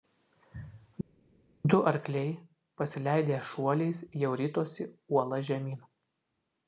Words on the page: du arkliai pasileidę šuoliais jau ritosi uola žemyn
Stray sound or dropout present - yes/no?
no